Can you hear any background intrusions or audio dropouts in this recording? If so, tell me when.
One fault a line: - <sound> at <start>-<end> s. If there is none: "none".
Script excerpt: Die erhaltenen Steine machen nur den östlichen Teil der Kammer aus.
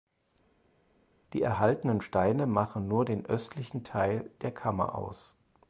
none